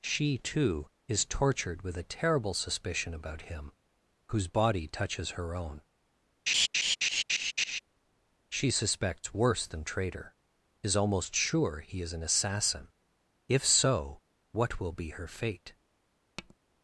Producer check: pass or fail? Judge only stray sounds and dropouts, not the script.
fail